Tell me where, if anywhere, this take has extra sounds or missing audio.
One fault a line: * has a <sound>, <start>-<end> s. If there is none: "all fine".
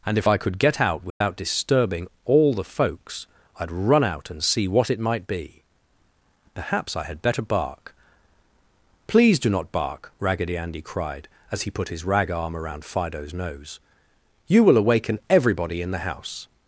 * has a dropout, 1.1-1.2 s